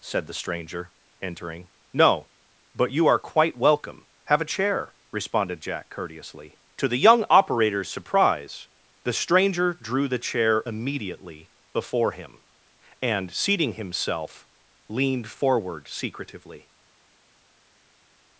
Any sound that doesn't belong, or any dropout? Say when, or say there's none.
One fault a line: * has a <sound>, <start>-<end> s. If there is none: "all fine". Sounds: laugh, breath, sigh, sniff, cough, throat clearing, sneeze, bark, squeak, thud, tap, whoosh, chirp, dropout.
all fine